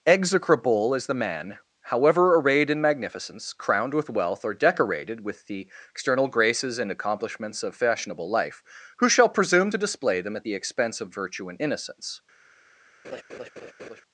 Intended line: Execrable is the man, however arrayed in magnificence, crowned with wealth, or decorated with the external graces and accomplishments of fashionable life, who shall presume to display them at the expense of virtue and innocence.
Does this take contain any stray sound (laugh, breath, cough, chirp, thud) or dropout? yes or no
yes